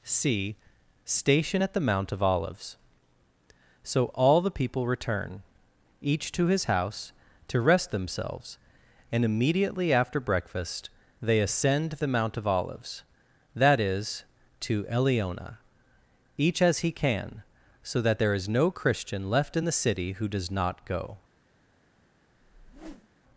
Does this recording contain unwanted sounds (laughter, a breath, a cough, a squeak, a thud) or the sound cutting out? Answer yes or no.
yes